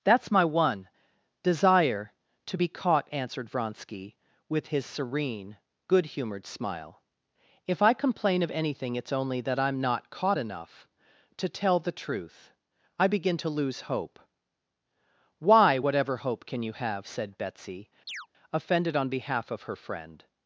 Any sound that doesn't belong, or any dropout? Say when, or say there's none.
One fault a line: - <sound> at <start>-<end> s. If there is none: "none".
- chirp at 18.1-18.3 s